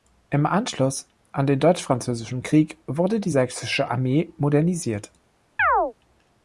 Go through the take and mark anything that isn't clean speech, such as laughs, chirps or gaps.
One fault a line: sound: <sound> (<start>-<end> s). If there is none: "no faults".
sound: chirp (5.6-5.9 s)